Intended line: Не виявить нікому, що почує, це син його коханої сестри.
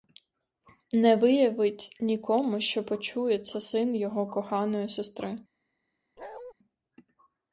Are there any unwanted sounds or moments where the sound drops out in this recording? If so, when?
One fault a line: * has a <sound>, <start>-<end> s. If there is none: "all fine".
* has a bark, 6.2-6.5 s